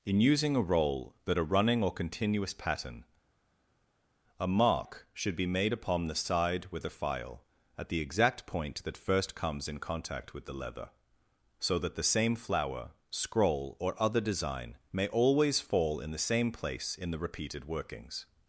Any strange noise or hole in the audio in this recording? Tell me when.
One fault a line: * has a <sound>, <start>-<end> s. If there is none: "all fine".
all fine